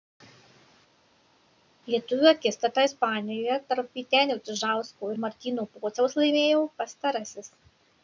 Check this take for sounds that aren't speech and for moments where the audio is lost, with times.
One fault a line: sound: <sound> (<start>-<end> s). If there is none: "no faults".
no faults